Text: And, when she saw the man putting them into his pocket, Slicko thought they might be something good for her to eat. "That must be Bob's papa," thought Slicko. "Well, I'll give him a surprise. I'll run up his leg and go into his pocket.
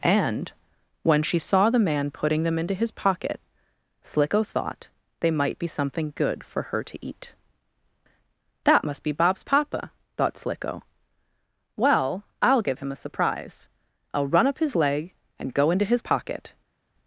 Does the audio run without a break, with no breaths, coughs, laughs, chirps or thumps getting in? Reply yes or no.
yes